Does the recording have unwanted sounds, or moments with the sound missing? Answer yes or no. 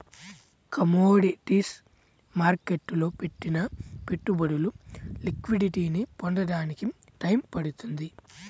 no